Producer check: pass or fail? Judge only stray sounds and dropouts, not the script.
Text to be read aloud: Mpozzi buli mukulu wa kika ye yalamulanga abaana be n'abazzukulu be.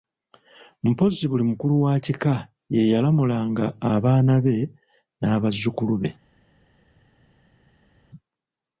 pass